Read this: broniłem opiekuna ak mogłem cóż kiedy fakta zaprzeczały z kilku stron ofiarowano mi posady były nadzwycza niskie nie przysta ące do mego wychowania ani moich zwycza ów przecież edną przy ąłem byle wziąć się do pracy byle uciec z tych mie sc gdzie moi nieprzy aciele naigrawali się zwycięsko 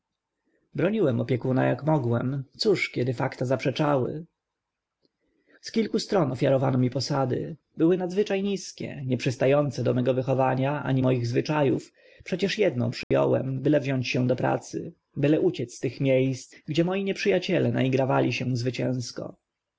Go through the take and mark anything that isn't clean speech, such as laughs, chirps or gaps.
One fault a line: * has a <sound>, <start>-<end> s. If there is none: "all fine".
* has a dropout, 13.0-13.1 s